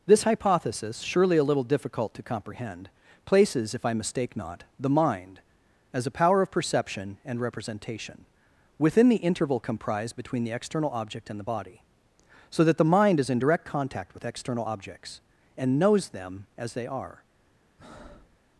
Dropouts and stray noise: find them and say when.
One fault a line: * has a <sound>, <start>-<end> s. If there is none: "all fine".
* has a breath, 17.8-18.4 s